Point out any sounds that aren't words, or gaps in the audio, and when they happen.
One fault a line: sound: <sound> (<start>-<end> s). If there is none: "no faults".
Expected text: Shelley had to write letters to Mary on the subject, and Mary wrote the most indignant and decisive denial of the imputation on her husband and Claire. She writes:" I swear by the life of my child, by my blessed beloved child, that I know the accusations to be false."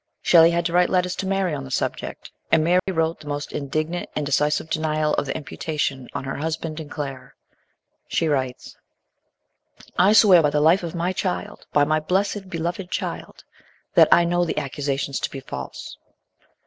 sound: dropout (2.8-2.9 s)